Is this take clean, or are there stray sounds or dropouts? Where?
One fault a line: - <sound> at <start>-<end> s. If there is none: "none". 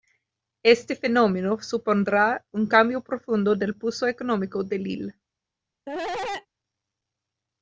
- cough at 5.9-6.5 s